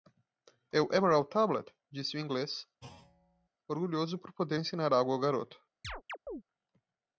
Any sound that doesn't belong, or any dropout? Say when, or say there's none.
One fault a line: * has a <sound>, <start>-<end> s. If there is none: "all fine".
* has a thud, 2.8-3.5 s
* has a chirp, 5.8-6.4 s